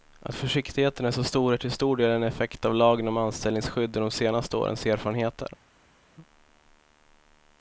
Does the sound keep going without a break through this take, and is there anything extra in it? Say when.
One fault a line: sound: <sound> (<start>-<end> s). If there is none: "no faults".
no faults